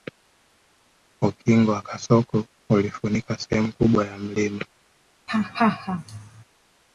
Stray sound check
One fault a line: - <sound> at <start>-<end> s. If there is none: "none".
- laugh at 5.3-6.4 s